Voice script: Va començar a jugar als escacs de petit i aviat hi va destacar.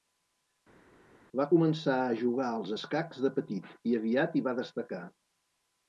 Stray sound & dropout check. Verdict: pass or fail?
pass